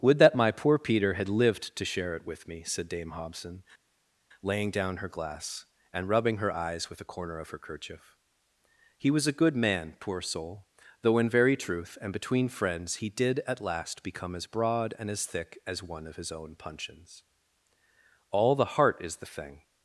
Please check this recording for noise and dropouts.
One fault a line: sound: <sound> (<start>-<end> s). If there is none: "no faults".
no faults